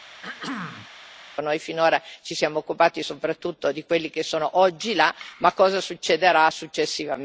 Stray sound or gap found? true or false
true